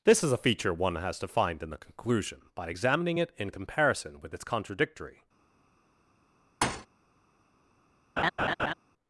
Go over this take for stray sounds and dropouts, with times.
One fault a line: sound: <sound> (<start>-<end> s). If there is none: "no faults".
sound: thud (6.6-6.9 s)
sound: laugh (8.2-8.7 s)